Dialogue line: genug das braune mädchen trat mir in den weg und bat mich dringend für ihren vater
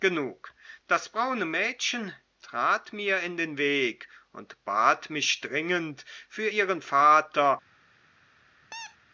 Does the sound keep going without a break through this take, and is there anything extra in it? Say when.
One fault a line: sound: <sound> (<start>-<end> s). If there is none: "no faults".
sound: squeak (8.7-9.0 s)